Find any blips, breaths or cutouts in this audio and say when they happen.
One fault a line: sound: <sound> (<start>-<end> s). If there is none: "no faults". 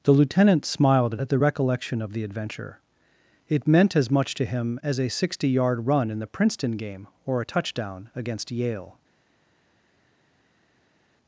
no faults